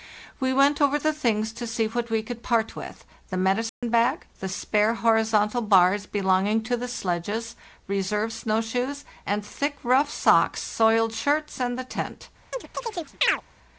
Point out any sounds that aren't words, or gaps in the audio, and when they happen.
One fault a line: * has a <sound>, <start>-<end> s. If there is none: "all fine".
* has a dropout, 3.7-3.8 s
* has a chirp, 12.5-13.4 s